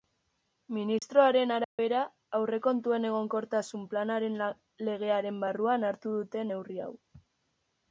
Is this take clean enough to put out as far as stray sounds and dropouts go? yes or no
no